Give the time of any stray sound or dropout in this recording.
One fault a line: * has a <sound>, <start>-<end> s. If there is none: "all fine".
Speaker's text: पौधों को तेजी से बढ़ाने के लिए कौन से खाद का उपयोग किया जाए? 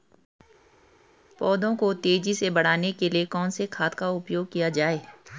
all fine